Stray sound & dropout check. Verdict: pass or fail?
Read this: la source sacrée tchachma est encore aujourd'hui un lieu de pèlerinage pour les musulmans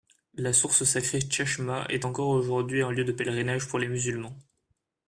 pass